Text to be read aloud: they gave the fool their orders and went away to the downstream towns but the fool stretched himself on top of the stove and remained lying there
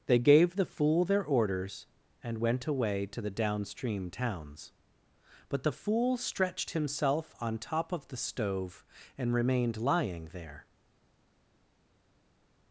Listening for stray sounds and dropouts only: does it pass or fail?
pass